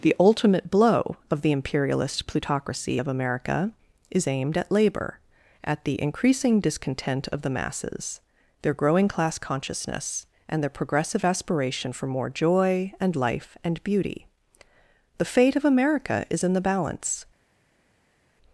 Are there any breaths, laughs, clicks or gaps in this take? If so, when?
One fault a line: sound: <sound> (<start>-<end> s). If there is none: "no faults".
no faults